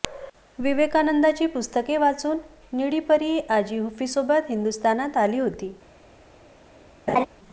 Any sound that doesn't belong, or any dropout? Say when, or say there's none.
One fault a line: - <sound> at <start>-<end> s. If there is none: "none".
- laugh at 7.1-7.3 s